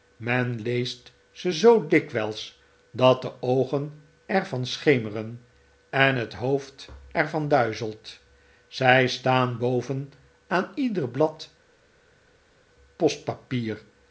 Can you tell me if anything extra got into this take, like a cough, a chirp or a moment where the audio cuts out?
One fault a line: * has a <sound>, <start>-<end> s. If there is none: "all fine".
all fine